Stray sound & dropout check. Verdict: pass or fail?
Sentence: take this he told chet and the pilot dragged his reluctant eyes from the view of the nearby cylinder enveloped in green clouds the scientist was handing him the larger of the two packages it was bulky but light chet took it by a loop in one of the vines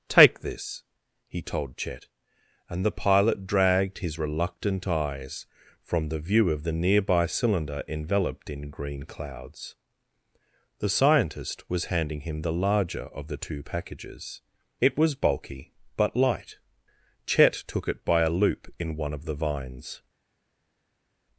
pass